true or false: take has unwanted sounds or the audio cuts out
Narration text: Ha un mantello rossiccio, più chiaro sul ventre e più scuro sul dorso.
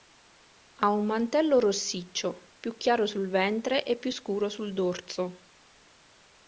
false